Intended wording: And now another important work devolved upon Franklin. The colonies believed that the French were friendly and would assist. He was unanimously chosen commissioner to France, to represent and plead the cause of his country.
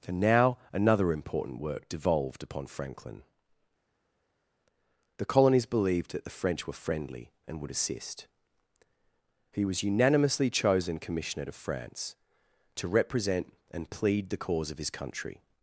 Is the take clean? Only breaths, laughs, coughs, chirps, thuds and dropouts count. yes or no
yes